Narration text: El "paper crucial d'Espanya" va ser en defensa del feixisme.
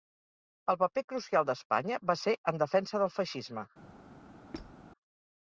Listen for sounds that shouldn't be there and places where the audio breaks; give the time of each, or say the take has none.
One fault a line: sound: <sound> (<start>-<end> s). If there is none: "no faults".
sound: squeak (4.5-4.8 s)